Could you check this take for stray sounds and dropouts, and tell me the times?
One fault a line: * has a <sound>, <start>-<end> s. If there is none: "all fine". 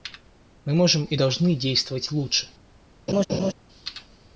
* has a laugh, 3.1-3.5 s